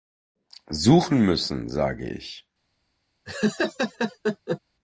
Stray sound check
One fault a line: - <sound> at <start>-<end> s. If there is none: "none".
- laugh at 3.2-4.6 s